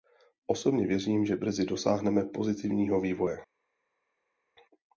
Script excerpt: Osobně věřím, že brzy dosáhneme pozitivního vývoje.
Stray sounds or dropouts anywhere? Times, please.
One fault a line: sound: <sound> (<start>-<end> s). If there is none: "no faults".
no faults